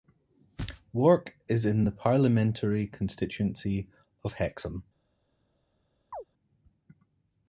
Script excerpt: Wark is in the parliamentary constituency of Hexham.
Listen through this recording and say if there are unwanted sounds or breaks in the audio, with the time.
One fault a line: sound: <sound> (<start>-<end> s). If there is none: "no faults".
sound: chirp (6.1-6.2 s)